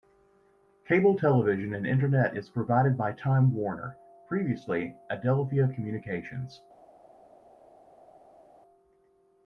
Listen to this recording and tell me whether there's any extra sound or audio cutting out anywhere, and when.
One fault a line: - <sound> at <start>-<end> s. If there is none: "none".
none